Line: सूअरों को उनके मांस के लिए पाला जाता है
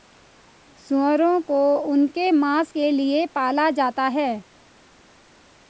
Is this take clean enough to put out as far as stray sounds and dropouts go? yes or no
yes